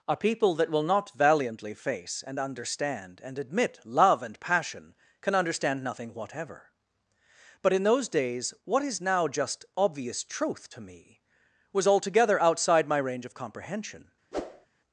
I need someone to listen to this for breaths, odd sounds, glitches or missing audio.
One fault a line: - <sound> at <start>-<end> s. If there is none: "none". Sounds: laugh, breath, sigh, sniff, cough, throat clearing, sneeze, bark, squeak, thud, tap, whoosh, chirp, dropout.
- whoosh at 14.3-14.7 s